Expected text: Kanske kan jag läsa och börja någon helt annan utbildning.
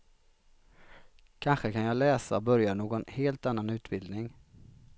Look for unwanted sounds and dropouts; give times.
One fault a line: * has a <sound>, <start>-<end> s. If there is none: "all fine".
all fine